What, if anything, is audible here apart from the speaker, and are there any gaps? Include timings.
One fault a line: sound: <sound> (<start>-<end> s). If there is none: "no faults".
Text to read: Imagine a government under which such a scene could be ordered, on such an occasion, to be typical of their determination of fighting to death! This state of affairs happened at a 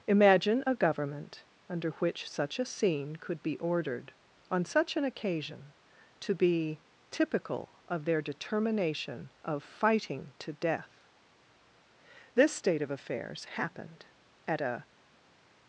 no faults